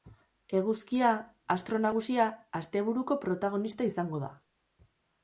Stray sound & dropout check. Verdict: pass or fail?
pass